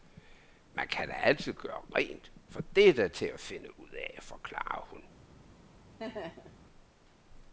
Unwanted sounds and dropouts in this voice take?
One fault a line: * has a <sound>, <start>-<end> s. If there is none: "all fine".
* has a laugh, 6.0-6.6 s